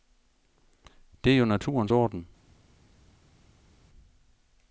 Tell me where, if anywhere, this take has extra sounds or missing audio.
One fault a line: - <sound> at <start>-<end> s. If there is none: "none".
none